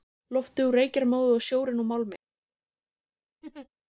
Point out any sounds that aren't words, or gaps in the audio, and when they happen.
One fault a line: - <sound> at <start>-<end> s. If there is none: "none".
- laugh at 3.4-3.7 s